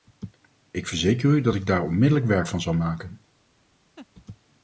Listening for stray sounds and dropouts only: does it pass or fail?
fail